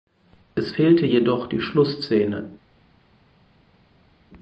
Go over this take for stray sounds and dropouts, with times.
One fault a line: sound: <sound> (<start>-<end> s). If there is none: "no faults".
no faults